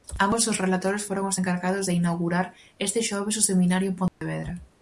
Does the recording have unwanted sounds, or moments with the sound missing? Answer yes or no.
yes